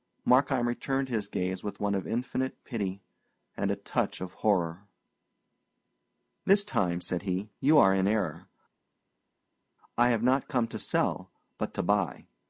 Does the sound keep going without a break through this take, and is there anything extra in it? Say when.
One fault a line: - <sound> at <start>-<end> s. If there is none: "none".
none